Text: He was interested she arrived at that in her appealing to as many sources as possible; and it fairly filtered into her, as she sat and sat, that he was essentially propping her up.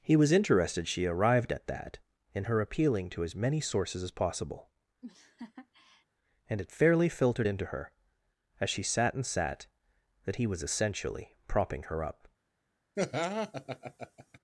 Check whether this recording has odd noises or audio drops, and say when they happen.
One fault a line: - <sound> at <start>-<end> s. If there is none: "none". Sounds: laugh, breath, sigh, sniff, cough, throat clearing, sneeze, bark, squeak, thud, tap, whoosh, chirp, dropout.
- laugh at 5.0-6.1 s
- laugh at 13.0-14.4 s